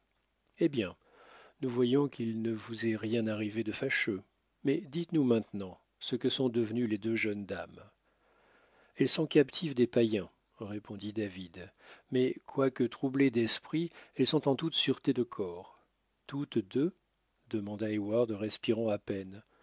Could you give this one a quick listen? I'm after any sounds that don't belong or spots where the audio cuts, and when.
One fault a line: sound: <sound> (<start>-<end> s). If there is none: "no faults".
no faults